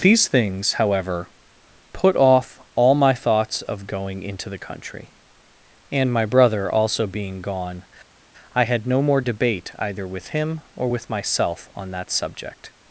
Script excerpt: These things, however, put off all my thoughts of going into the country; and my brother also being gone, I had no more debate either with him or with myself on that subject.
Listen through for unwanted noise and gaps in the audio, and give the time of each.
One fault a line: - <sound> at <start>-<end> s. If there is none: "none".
none